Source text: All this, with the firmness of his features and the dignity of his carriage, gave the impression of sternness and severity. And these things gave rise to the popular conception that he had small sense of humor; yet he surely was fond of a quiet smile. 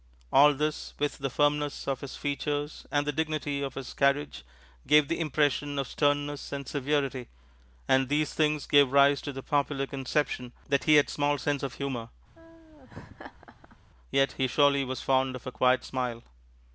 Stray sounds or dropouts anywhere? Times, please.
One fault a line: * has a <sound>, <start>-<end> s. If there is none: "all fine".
* has a laugh, 12.3-13.8 s